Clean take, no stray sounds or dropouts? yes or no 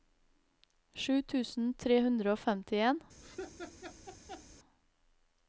no